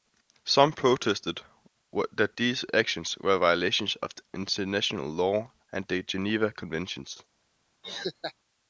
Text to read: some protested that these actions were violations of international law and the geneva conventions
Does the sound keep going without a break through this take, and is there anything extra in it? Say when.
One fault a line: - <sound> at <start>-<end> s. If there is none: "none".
- laugh at 7.8-8.3 s